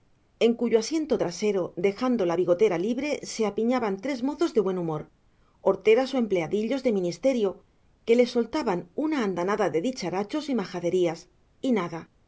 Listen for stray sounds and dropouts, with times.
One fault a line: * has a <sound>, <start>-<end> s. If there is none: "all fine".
all fine